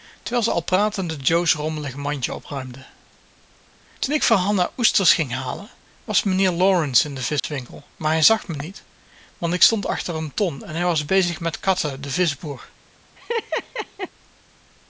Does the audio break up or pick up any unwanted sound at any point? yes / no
yes